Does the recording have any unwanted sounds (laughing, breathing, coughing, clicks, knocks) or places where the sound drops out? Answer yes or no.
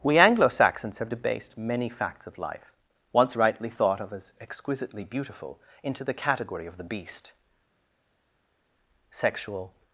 no